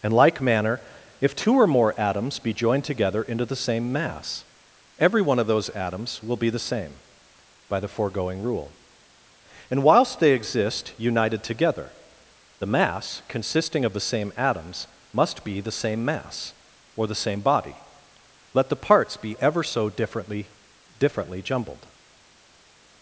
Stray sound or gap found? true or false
false